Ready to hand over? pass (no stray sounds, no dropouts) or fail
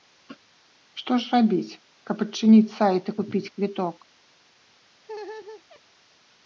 fail